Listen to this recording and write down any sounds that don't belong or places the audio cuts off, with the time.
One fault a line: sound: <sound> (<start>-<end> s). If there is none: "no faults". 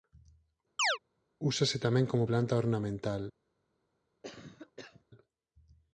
sound: chirp (0.8-1.0 s)
sound: cough (4.2-5.0 s)